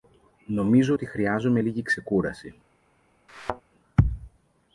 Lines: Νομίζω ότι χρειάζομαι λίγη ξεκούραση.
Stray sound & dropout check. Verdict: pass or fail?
fail